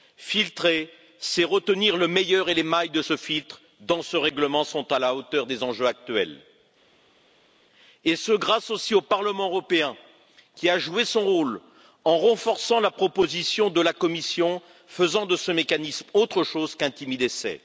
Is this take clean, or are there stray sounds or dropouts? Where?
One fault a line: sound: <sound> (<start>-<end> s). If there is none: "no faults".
no faults